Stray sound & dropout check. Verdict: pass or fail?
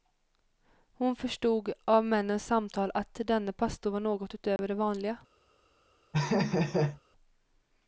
fail